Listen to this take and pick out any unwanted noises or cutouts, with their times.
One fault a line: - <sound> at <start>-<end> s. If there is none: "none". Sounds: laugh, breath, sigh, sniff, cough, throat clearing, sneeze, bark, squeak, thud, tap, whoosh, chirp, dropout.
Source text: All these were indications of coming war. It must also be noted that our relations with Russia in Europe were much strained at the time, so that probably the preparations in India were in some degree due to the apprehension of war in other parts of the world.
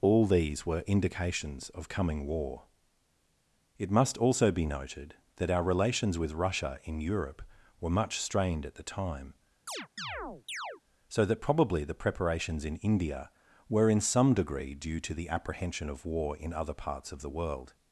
- chirp at 9.7-10.8 s